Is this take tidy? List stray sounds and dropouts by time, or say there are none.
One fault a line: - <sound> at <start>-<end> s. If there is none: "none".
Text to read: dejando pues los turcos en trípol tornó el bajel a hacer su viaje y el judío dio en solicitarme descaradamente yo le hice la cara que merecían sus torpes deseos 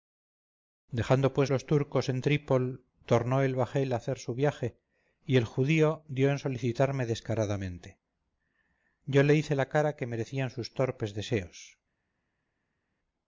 none